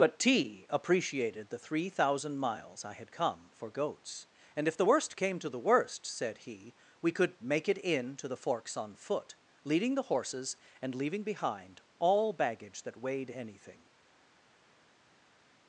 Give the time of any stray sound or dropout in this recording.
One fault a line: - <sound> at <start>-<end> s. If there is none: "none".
none